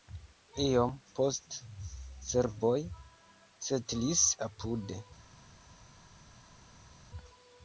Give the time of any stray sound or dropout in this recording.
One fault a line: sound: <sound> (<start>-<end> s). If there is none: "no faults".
no faults